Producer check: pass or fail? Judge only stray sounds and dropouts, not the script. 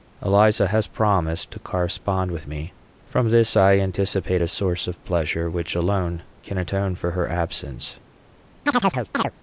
fail